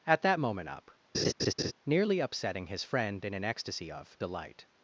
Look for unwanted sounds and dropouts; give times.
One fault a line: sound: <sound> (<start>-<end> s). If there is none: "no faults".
sound: laugh (1.1-1.7 s)